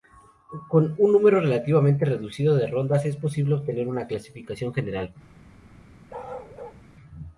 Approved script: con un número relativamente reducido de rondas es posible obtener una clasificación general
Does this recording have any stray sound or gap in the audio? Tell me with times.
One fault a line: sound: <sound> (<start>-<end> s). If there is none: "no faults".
sound: bark (6.1-6.8 s)